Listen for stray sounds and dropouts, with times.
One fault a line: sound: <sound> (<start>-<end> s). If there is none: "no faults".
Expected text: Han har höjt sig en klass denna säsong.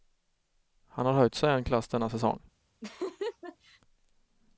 sound: laugh (2.8-3.8 s)